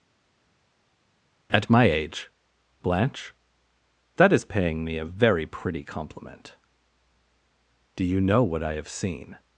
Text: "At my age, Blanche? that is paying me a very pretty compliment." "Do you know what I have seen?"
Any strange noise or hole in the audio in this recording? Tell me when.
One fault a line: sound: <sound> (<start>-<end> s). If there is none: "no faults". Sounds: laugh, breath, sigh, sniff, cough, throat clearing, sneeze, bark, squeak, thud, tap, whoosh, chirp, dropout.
no faults